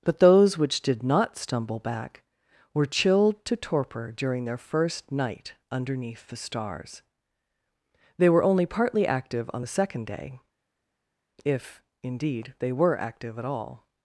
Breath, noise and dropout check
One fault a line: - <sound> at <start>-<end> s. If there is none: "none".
none